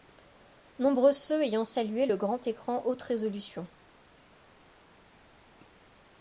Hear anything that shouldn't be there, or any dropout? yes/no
no